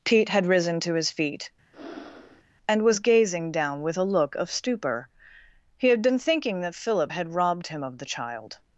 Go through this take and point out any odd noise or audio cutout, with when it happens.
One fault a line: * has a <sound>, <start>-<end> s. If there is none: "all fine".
* has a breath, 1.7-2.4 s